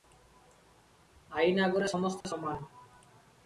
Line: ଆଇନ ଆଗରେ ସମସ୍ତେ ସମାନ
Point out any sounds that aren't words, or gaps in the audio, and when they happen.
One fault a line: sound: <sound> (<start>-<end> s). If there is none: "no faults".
sound: dropout (2.2-2.2 s)